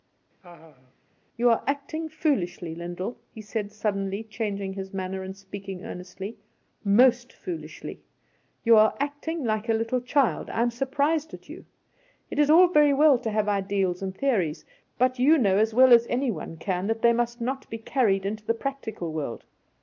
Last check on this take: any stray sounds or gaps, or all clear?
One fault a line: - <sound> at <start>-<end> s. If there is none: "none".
- laugh at 0.4-0.9 s